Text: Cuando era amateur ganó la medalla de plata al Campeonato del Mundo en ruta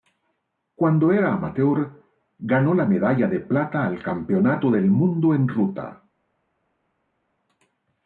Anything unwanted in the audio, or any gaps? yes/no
no